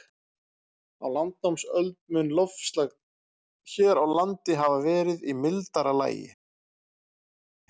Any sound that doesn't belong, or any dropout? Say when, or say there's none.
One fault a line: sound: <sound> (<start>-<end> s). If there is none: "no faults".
no faults